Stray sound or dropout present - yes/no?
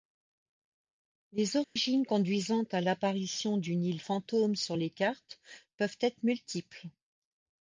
yes